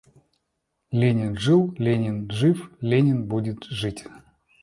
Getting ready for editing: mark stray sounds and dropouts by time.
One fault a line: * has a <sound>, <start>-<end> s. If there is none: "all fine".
all fine